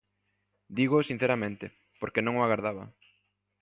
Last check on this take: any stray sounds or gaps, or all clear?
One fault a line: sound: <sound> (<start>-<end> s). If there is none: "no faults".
no faults